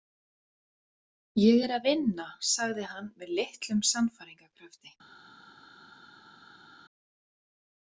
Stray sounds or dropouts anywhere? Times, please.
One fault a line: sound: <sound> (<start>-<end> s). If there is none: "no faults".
no faults